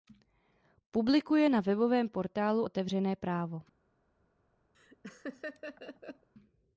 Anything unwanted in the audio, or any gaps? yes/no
yes